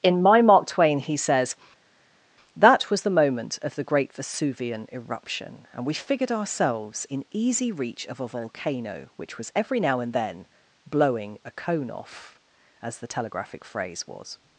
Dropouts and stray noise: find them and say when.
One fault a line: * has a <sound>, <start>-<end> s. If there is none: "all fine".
all fine